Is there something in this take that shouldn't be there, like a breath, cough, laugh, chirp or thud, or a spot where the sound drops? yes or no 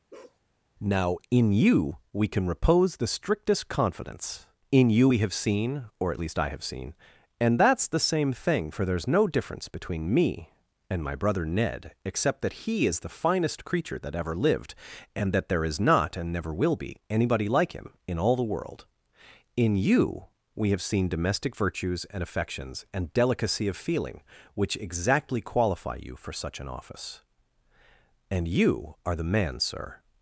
yes